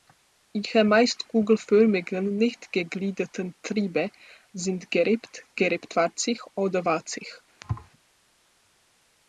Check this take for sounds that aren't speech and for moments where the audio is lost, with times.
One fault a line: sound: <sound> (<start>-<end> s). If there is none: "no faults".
sound: thud (7.6-7.9 s)